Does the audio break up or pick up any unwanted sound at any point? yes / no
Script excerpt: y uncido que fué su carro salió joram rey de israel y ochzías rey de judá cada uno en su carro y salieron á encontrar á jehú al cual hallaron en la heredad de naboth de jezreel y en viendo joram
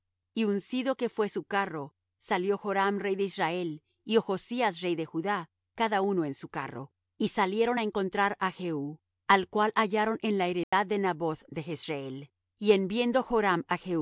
yes